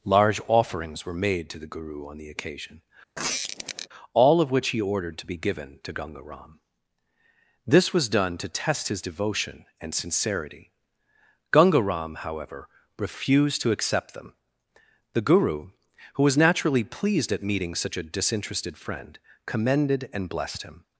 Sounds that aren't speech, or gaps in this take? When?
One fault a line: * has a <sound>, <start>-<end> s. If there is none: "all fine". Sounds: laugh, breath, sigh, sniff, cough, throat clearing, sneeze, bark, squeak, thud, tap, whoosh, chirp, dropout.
* has a squeak, 3.2-3.9 s